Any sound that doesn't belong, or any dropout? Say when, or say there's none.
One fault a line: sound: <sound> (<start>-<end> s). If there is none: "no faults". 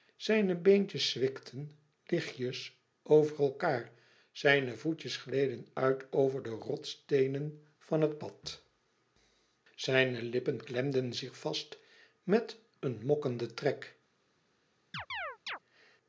sound: chirp (14.9-15.6 s)